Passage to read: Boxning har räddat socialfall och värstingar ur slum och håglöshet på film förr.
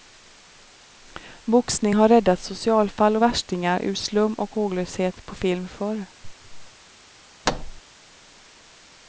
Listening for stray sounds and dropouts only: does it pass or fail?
fail